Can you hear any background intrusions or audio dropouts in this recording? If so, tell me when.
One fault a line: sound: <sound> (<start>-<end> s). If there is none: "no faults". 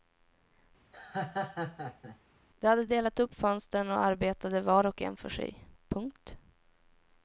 sound: laugh (0.9-2.2 s)